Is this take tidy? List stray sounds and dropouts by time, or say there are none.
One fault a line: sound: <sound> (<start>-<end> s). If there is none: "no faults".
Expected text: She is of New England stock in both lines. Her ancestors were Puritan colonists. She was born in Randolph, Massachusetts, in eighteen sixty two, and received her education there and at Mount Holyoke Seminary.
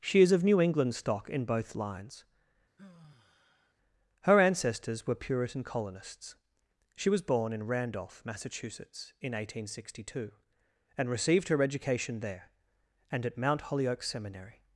sound: sigh (2.8-3.7 s)